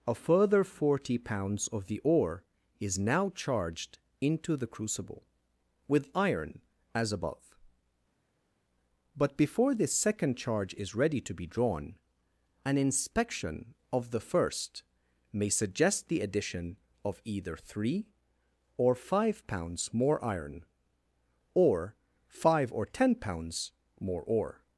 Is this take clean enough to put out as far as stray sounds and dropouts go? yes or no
yes